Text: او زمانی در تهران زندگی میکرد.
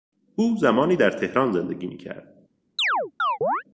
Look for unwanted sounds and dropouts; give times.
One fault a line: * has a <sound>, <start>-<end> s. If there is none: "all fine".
* has a chirp, 2.8-3.6 s